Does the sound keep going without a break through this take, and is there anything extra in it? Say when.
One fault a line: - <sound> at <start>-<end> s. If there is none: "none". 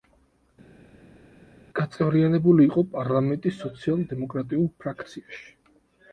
none